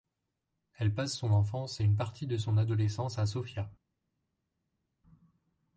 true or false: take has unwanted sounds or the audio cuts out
false